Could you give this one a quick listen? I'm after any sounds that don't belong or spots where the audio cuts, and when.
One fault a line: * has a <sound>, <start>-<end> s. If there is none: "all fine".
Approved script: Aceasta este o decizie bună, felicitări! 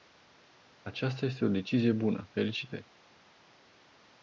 all fine